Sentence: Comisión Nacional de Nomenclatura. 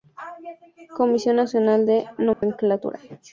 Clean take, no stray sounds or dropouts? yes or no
no